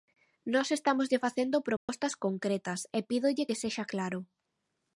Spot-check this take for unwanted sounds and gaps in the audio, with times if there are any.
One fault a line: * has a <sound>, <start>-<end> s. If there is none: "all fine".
* has a dropout, 1.8-1.9 s